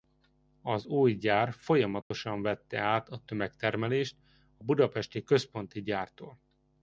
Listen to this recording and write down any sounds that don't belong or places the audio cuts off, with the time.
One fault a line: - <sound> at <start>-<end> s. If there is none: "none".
- dropout at 2.0-2.1 s